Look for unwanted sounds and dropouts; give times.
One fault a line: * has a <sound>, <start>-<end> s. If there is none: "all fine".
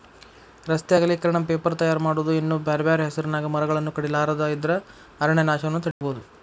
* has a dropout, 5.9-6.0 s